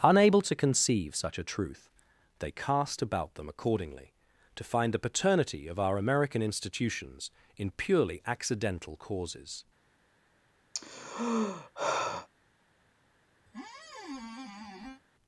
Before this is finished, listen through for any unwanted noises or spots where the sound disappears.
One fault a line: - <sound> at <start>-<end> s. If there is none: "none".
- sigh at 10.7-12.3 s
- squeak at 13.5-15.0 s